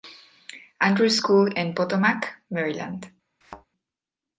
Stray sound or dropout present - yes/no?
yes